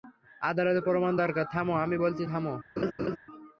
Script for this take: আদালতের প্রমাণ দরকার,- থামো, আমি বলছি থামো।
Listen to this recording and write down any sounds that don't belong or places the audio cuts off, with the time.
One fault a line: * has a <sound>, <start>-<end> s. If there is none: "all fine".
* has a laugh, 2.8-3.2 s